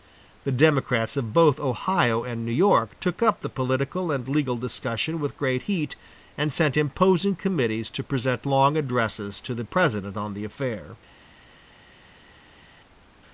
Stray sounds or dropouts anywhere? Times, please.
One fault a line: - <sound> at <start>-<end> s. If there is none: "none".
none